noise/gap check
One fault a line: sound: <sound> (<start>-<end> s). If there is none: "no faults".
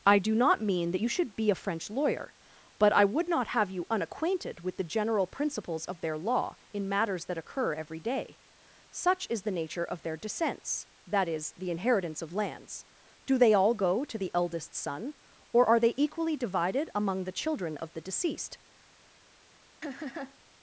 sound: laugh (19.8-20.4 s)